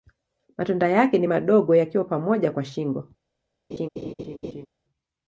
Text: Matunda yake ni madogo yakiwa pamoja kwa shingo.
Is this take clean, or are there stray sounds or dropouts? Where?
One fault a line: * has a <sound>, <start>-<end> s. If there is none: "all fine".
* has a laugh, 3.7-4.7 s